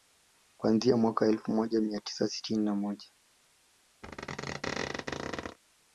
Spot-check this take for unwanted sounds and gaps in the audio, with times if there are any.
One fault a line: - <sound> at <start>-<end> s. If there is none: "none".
- squeak at 4.0-5.6 s